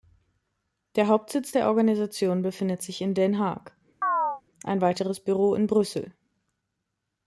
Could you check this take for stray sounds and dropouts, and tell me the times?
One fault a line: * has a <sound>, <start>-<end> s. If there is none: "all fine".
* has a chirp, 4.0-4.4 s